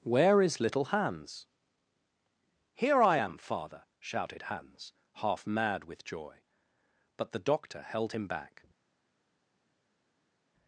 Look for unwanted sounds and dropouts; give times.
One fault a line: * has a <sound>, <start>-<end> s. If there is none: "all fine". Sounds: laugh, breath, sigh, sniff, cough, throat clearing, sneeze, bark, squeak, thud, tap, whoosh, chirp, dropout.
all fine